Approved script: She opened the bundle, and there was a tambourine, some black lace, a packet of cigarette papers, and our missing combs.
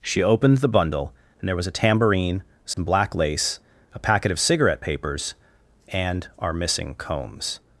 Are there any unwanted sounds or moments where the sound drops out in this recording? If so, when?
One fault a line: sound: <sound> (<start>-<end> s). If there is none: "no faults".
sound: dropout (2.7-2.8 s)